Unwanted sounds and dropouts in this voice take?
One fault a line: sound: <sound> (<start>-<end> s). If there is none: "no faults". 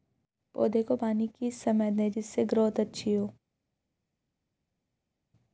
no faults